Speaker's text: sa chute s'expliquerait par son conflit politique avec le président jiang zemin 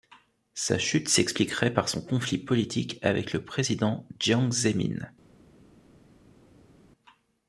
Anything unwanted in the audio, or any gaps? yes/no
no